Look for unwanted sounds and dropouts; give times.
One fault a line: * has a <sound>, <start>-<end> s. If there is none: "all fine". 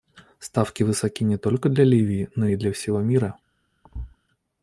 * has a thud, 3.8-4.2 s